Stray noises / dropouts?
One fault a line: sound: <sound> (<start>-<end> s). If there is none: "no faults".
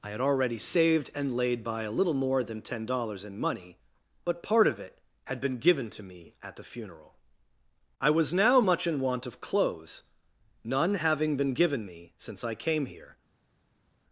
no faults